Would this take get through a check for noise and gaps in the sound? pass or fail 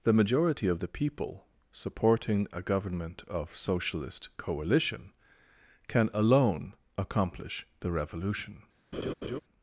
fail